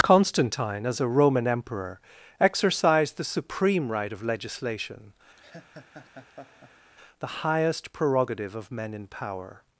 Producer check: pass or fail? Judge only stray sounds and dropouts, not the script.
fail